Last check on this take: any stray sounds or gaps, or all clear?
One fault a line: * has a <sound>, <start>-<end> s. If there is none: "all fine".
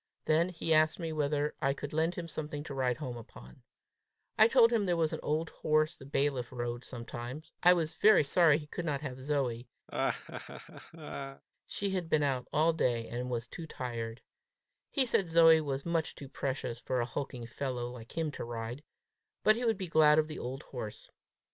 * has a laugh, 9.9-11.4 s